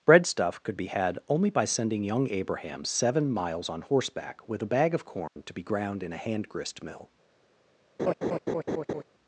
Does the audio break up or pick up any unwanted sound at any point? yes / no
yes